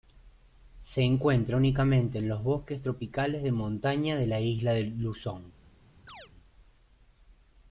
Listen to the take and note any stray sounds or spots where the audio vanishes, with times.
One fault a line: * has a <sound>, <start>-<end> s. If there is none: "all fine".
* has a chirp, 6.1-6.3 s